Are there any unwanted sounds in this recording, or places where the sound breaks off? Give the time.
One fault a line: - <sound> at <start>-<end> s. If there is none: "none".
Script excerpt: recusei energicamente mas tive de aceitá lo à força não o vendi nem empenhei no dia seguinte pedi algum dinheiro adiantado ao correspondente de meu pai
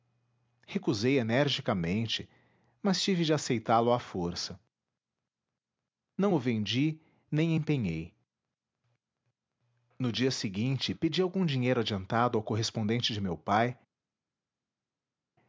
none